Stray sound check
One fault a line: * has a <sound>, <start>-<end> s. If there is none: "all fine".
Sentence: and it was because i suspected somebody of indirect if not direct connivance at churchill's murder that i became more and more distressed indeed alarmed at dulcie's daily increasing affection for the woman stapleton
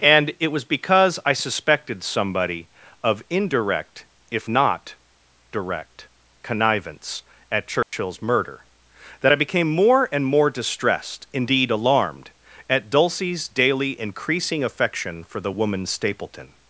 * has a dropout, 7.8-7.9 s